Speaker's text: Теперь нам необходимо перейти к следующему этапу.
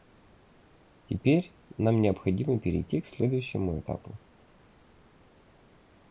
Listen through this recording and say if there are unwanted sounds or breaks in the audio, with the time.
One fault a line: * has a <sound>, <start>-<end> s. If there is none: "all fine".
all fine